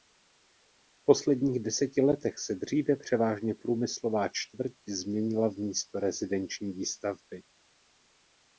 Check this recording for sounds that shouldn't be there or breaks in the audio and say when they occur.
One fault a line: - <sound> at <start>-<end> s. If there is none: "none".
none